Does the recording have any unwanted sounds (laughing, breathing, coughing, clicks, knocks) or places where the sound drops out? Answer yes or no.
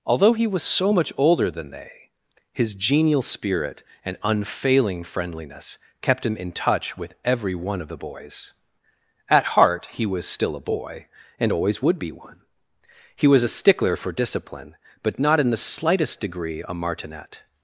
no